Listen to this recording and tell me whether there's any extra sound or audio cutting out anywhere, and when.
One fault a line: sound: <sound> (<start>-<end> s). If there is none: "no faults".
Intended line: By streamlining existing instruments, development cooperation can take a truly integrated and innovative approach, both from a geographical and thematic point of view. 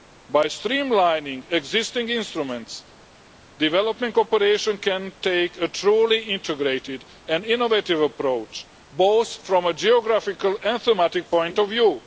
no faults